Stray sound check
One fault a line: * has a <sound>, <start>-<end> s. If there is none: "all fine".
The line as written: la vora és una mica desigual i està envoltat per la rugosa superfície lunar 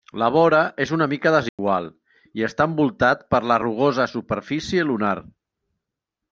* has a dropout, 1.5-1.6 s